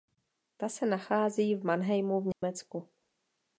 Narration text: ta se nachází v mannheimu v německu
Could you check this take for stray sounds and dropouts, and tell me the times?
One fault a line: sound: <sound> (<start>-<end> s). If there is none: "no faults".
sound: dropout (2.3-2.4 s)